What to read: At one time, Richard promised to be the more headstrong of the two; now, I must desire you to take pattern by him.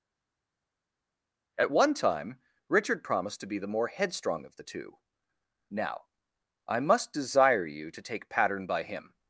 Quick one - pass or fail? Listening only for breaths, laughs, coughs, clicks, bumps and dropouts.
pass